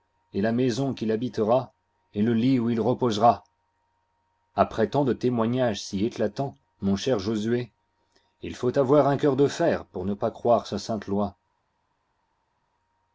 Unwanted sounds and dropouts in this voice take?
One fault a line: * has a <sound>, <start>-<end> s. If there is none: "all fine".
all fine